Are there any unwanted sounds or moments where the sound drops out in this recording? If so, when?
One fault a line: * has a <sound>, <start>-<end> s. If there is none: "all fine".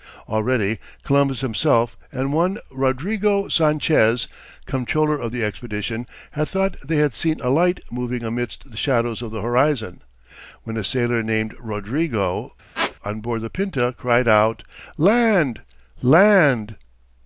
* has a squeak, 12.7-13.0 s